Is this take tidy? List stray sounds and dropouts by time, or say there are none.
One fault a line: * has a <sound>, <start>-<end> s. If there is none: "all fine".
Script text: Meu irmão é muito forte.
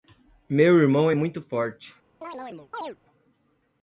* has a chirp, 2.2-3.0 s